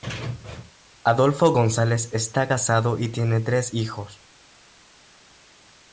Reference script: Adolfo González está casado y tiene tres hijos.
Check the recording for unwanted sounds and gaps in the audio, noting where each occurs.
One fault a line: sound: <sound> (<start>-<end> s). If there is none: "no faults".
no faults